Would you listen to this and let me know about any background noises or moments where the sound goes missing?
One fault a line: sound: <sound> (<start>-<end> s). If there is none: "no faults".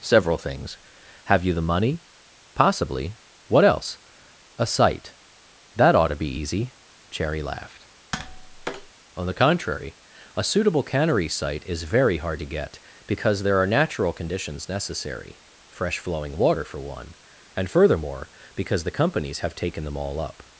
sound: tap (8.1-8.9 s)